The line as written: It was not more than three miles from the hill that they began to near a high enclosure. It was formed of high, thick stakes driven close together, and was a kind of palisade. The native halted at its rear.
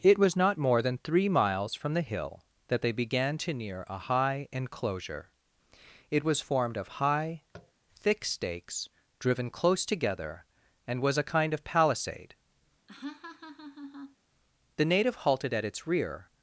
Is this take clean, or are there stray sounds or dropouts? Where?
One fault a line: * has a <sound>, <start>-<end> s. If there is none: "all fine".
* has a tap, 7.5-7.7 s
* has a laugh, 12.9-14.2 s